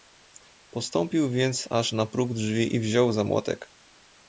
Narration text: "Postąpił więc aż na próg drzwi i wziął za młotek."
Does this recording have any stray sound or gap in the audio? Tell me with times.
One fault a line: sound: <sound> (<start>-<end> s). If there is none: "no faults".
no faults